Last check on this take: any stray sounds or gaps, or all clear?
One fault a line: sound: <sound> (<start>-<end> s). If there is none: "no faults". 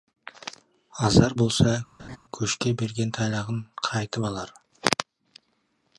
sound: laugh (2.0-2.2 s)